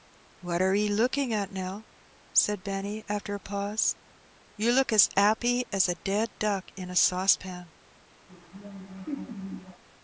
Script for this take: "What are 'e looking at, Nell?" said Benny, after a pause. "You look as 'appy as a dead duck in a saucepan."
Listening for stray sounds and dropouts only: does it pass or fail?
fail